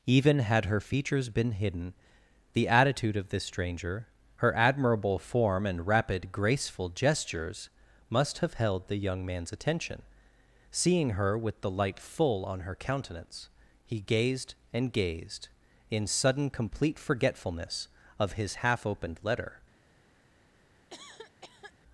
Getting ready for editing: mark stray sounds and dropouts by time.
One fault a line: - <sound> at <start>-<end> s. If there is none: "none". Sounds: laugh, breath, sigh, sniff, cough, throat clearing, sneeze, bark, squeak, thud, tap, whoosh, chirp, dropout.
- cough at 20.9-21.7 s